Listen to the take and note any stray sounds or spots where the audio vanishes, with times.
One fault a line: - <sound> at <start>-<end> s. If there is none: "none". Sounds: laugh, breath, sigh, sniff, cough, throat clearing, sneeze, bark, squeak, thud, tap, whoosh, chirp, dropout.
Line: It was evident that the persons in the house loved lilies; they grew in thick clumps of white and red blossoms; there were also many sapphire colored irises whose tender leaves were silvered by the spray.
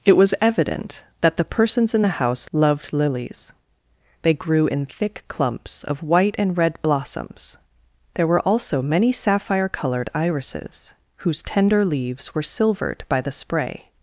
none